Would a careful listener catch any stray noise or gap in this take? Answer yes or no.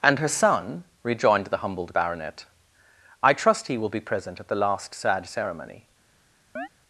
yes